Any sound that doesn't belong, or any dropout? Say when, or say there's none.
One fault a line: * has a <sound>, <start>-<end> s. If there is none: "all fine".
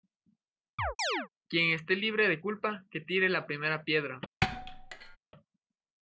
* has a chirp, 0.8-1.3 s
* has a thud, 4.4-5.2 s